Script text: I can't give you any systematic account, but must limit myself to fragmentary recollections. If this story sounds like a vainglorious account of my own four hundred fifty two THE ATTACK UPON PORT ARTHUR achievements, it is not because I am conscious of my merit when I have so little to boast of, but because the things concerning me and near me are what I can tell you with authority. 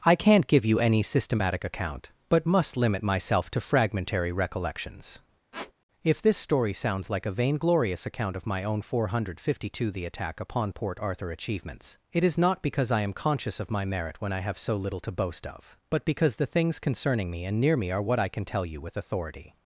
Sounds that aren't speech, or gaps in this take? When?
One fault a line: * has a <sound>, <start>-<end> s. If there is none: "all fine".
* has a squeak, 5.5-5.7 s